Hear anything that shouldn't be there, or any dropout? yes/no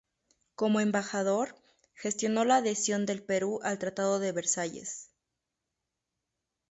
no